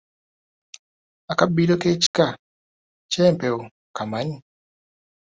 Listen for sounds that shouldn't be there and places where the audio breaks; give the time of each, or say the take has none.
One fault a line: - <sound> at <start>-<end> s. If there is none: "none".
- dropout at 2.1-2.1 s